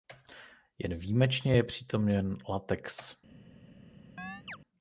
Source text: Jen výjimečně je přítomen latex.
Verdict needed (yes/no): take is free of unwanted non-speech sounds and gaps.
no